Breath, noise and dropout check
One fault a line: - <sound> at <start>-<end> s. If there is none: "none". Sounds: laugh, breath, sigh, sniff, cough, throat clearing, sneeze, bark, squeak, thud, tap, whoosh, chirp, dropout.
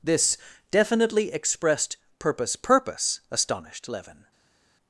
none